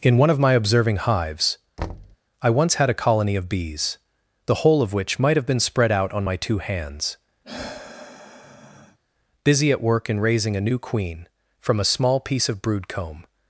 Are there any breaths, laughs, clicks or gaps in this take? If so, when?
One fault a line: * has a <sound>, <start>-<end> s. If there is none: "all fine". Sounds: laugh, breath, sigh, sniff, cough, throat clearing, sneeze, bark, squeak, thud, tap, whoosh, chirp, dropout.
* has a thud, 1.8-2.2 s
* has a sigh, 7.4-9.0 s